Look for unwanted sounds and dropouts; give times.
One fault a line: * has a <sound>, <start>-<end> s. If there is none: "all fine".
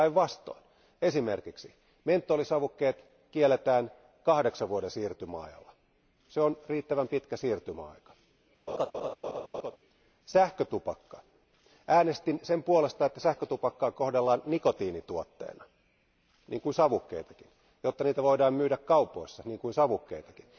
* has a laugh, 8.7-9.8 s